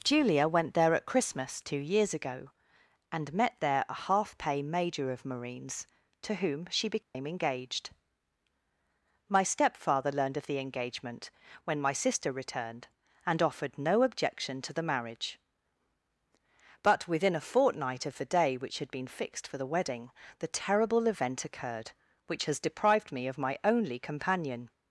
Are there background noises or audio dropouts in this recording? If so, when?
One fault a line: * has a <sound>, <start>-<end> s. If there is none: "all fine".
* has a dropout, 7.0-7.1 s